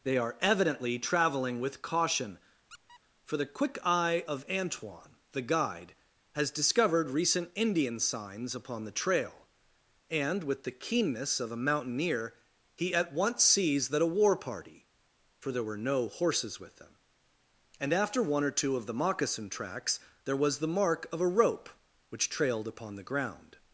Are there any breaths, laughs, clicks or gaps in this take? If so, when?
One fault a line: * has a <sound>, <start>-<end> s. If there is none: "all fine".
* has a squeak, 2.7-3.0 s